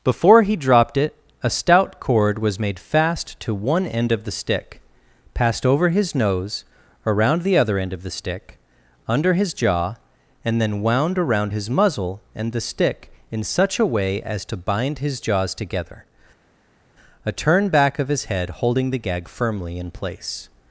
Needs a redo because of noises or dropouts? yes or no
no